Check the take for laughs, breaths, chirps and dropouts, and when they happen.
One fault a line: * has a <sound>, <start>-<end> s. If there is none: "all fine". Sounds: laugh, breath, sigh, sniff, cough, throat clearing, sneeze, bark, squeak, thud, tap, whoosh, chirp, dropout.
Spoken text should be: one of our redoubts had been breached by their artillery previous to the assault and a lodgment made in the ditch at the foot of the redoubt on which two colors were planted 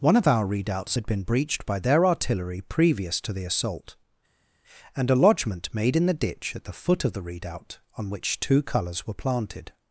all fine